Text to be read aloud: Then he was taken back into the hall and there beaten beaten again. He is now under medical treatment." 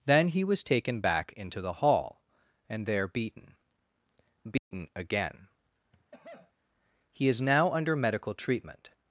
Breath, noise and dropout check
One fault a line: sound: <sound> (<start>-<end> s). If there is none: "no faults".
sound: dropout (4.6-4.7 s)
sound: cough (5.9-6.5 s)